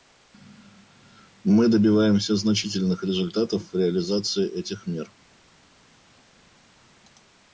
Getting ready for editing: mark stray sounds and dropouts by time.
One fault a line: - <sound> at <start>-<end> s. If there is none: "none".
none